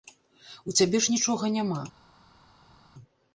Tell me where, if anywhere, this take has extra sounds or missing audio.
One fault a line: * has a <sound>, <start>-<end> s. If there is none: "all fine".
all fine